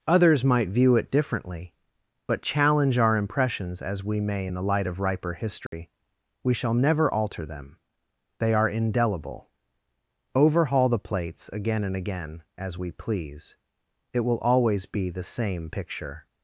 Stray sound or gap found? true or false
true